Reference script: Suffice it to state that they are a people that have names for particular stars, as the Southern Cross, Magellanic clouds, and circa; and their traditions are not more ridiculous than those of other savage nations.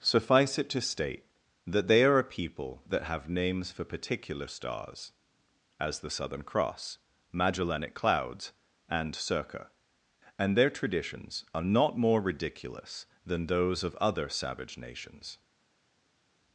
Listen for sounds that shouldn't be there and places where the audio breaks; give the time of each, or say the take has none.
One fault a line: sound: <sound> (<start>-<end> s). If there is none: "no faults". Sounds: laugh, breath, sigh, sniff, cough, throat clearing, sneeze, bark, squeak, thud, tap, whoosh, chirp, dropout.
no faults